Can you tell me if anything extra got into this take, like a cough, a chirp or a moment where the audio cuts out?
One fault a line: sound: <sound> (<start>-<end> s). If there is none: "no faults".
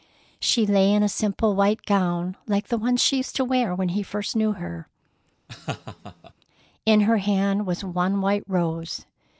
sound: laugh (5.5-6.3 s)